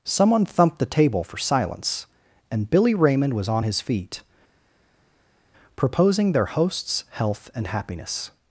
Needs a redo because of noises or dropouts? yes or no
no